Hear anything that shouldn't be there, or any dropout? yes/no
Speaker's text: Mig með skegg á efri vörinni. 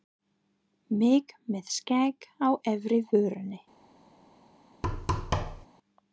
yes